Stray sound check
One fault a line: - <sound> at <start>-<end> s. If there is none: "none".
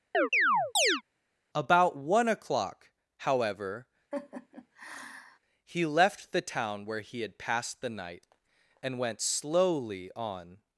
- chirp at 0.1-1.0 s
- laugh at 4.1-5.4 s